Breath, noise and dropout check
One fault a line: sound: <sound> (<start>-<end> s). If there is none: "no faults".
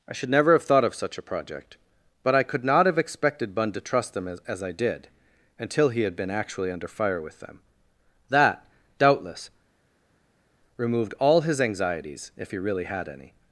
no faults